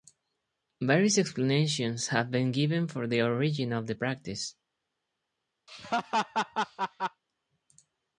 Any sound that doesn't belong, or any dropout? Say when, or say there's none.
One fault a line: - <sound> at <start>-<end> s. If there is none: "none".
- laugh at 5.7-7.2 s